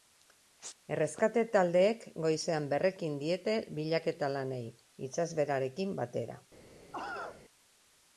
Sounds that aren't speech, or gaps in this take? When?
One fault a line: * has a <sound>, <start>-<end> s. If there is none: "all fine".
* has a cough, 6.9-7.4 s